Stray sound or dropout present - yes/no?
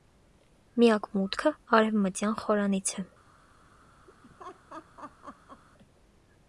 yes